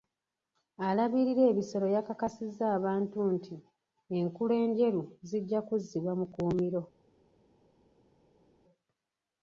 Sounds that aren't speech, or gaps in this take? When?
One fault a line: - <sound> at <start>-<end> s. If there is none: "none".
none